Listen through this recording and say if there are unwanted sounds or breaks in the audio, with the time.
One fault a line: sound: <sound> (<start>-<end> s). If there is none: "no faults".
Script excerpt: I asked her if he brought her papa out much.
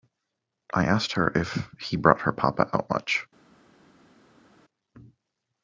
no faults